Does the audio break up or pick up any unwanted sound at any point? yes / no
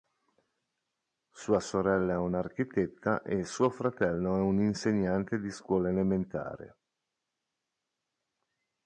no